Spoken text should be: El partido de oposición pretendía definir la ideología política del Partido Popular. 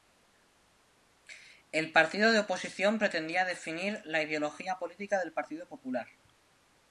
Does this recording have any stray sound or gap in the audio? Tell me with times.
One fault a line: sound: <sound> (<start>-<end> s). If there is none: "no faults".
no faults